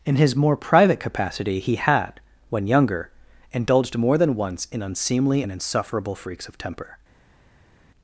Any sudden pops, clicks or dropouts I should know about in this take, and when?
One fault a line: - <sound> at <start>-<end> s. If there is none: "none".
none